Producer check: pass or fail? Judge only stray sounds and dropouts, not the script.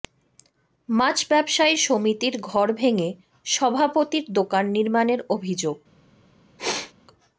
fail